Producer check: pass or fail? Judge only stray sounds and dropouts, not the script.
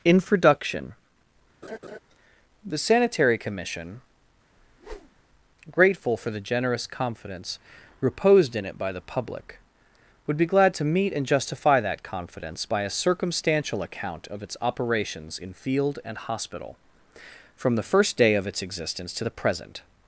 fail